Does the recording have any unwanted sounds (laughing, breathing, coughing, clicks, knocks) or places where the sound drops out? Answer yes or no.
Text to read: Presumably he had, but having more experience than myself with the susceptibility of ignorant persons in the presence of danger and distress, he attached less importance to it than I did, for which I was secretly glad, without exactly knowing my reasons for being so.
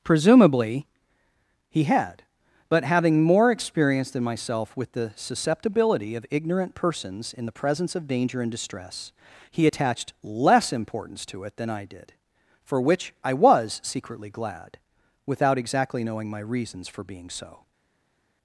no